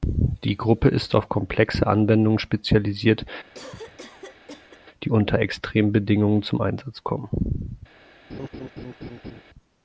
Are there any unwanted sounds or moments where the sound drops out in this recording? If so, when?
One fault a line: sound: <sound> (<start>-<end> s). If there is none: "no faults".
sound: cough (3.5-4.8 s)
sound: laugh (8.3-9.4 s)